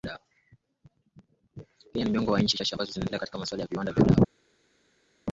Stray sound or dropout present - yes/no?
no